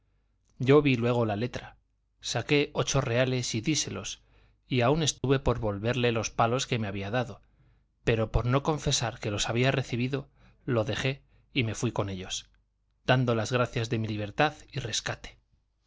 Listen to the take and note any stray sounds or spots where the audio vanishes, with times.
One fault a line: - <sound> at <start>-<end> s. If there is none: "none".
- dropout at 5.2-5.2 s